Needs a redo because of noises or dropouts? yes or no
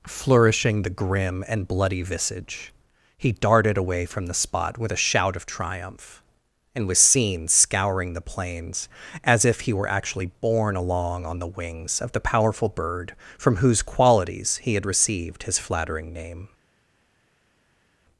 no